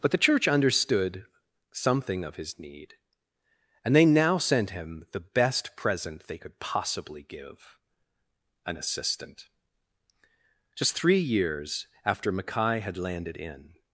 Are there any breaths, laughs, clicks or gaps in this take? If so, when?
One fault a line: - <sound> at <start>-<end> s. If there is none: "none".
none